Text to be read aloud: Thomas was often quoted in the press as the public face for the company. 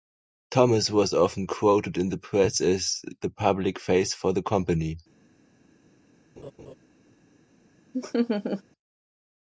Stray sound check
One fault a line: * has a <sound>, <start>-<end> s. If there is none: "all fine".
* has a laugh, 6.4-6.7 s
* has a laugh, 7.9-8.6 s